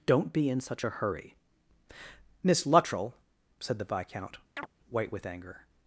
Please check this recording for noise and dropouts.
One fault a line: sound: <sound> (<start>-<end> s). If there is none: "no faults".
sound: chirp (4.6-4.7 s)